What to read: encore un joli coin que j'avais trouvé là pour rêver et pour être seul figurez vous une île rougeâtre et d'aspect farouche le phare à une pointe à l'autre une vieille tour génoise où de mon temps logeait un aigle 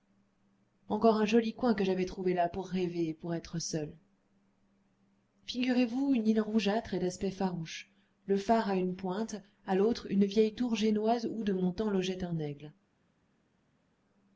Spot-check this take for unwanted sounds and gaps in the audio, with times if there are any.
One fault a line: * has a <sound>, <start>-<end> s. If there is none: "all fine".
all fine